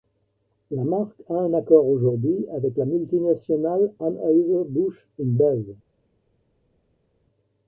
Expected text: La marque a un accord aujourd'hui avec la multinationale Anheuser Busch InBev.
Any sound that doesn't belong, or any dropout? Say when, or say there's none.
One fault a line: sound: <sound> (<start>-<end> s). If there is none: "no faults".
no faults